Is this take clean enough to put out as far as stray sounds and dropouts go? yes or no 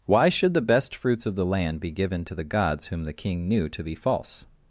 yes